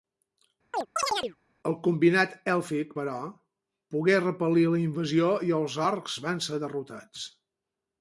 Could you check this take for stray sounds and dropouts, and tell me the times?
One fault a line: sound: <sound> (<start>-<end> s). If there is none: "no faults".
sound: chirp (0.7-1.4 s)